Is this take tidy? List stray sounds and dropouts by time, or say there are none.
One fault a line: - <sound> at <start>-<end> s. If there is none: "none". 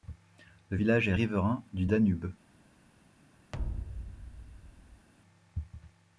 - thud at 3.5-5.1 s